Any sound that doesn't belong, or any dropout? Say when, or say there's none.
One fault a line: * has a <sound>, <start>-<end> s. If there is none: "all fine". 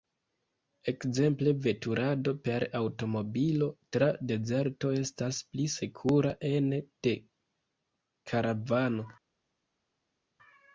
all fine